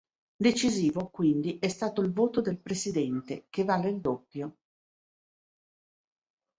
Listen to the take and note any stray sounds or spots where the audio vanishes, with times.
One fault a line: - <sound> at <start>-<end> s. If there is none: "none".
none